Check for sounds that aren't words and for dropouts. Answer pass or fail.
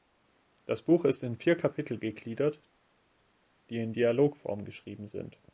pass